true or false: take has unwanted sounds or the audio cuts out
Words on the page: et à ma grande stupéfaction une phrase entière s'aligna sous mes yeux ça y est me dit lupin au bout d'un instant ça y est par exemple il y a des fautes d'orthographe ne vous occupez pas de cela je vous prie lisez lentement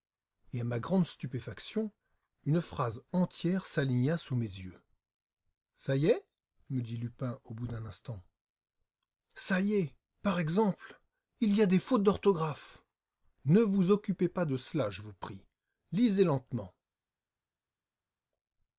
false